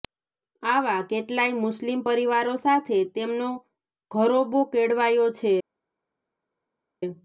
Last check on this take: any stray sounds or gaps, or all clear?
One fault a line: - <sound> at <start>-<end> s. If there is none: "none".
none